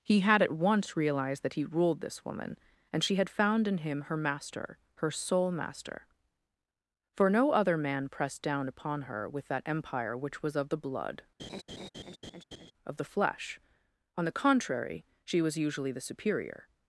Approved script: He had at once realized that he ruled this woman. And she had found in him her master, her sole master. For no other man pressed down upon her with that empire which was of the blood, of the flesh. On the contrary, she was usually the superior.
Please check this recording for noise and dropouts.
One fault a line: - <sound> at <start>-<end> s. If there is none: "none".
- laugh at 11.4-12.7 s